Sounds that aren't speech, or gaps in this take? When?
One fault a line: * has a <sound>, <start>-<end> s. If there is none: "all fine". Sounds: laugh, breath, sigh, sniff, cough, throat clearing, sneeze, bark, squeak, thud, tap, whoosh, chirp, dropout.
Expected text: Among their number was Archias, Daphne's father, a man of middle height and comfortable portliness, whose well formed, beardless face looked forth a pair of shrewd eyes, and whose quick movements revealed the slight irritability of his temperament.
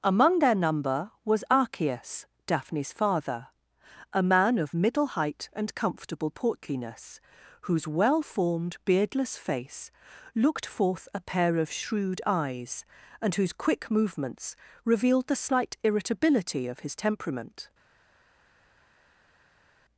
all fine